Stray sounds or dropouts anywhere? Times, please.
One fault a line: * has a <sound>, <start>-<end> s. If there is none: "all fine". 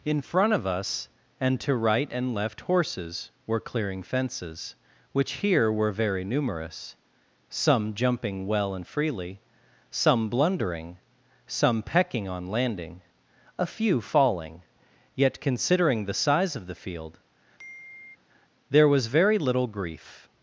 * has a sigh, 17.6-18.2 s